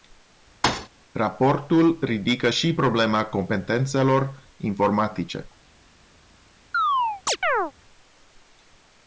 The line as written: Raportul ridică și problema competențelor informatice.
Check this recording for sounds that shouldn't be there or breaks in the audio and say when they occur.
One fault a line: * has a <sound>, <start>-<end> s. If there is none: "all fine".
* has a thud, 0.6-0.9 s
* has a chirp, 6.7-7.7 s